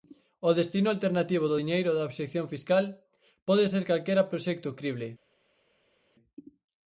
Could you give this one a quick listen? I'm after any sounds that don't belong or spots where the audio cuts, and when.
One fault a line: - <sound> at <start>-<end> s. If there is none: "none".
none